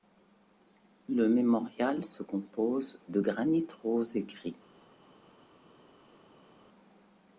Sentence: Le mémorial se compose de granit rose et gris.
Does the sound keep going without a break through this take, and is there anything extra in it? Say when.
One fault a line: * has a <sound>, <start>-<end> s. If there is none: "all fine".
all fine